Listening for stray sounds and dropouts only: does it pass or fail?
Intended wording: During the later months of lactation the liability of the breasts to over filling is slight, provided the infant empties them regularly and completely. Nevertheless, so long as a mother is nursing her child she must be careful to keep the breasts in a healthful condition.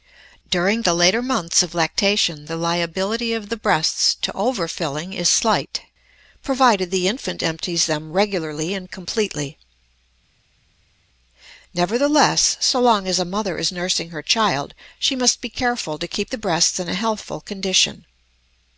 pass